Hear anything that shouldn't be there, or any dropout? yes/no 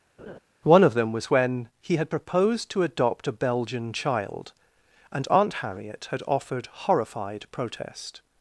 yes